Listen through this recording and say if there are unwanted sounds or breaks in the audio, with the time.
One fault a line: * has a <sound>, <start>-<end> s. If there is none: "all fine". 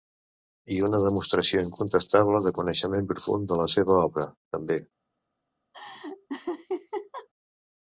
* has a laugh, 5.7-7.3 s